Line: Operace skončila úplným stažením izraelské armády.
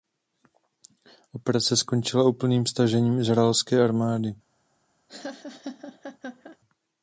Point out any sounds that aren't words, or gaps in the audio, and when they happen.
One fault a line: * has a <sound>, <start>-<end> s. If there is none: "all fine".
* has a laugh, 5.1-6.6 s